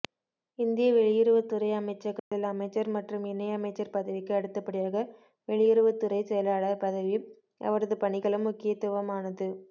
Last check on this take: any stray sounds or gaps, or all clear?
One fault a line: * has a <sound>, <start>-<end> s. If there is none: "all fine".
* has a dropout, 2.2-2.3 s